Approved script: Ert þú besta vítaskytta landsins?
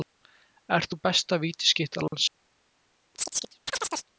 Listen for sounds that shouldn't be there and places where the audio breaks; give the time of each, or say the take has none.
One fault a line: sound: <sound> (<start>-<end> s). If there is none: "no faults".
sound: dropout (2.1-2.1 s)
sound: chirp (3.1-4.1 s)